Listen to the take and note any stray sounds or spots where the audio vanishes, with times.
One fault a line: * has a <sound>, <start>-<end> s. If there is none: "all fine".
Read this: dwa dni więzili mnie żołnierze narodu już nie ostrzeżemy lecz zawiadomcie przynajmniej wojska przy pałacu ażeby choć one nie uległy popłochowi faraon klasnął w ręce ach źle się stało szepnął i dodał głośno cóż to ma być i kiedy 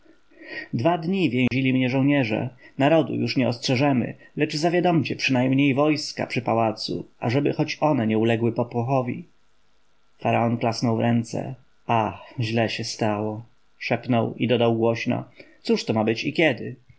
* has a dropout, 1.5-1.5 s